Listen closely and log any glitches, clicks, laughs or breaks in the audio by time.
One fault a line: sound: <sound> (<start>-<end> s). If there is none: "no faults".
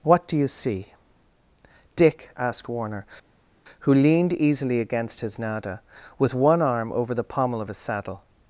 no faults